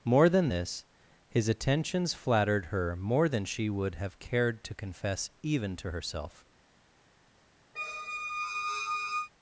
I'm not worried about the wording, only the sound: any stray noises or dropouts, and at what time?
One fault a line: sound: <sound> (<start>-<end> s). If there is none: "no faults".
sound: squeak (7.8-9.3 s)